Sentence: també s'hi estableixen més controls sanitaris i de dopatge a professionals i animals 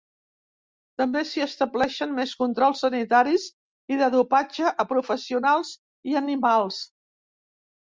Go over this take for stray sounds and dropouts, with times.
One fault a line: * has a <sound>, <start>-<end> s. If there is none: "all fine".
all fine